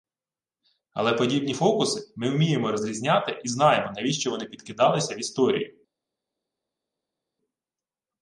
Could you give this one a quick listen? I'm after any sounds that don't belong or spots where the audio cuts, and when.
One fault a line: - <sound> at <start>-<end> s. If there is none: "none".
none